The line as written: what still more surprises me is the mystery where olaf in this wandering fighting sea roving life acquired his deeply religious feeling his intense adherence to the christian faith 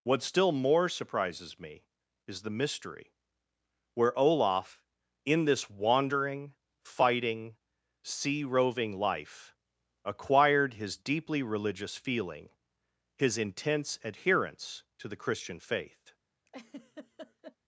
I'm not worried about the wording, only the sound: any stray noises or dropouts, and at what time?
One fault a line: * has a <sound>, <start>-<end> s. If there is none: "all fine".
* has a laugh, 16.5-17.6 s